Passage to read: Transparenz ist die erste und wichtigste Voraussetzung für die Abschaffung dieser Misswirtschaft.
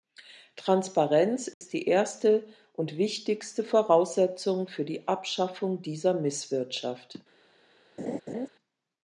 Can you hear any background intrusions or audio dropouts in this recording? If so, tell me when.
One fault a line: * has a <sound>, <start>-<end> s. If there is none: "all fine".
* has a dropout, 1.5-1.6 s
* has a laugh, 8.0-8.5 s